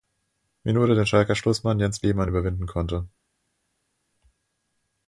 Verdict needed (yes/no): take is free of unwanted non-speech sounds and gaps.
yes